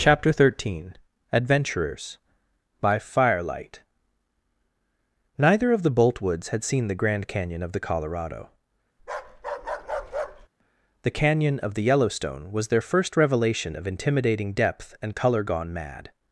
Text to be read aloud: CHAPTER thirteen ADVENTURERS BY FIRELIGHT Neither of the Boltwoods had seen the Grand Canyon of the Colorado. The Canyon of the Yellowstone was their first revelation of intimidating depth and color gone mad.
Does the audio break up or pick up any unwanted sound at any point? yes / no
yes